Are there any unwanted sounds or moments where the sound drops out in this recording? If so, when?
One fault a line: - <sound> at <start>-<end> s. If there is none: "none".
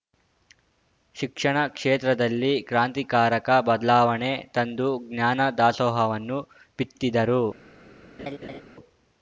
- laugh at 8.2-8.6 s